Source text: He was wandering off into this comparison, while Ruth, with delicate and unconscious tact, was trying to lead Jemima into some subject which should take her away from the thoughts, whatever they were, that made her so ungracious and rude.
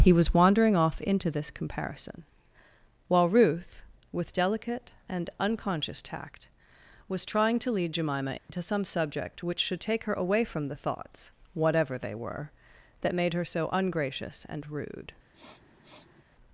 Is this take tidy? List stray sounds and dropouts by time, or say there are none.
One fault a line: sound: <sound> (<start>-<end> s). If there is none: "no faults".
sound: dropout (8.4-8.5 s)
sound: sniff (15.3-16.2 s)